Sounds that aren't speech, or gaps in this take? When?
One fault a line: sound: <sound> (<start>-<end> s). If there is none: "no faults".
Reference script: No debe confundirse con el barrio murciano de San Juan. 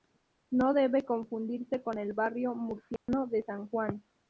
sound: dropout (3.0-3.1 s)